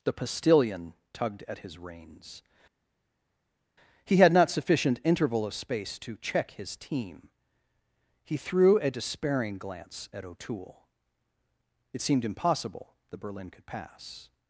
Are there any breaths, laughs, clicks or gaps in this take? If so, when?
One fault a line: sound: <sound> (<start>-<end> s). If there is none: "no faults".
no faults